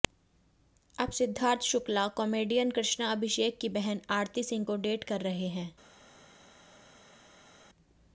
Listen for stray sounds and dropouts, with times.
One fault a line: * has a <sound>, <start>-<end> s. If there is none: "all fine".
all fine